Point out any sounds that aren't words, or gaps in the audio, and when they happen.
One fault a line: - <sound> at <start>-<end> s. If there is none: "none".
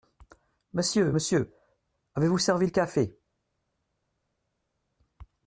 none